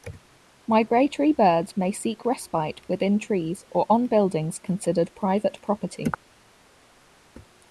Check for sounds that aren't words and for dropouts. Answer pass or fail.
pass